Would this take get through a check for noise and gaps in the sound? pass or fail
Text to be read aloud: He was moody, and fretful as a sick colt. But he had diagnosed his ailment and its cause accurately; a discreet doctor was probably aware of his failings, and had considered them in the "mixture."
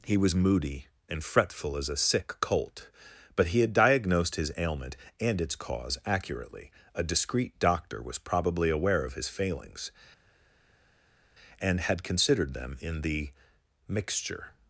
pass